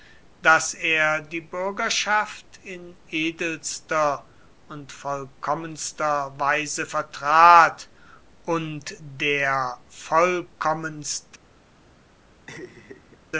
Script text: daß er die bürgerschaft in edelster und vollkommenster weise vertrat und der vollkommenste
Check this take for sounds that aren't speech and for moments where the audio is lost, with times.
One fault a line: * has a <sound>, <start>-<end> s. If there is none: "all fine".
* has a laugh, 12.5-13.2 s